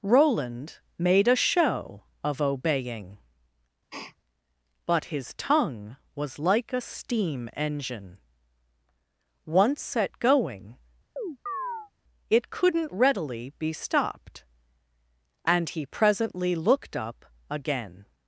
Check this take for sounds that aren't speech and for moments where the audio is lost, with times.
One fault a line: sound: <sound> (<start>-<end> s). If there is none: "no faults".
sound: sniff (3.9-4.2 s)
sound: chirp (11.2-11.9 s)